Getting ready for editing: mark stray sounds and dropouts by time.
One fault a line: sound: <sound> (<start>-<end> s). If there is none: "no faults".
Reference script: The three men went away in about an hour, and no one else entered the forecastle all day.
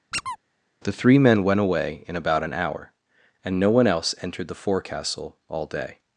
sound: squeak (0.1-0.4 s)